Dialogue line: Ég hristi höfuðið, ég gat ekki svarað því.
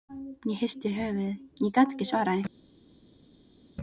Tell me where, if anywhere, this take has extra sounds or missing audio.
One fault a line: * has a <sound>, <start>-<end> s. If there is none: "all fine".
all fine